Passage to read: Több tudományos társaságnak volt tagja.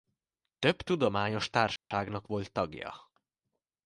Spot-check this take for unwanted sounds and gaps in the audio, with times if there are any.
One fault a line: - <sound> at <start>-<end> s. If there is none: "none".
- dropout at 1.8-1.9 s